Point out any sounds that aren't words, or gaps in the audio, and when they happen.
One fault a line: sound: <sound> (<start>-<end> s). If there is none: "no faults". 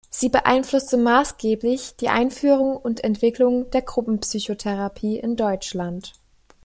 no faults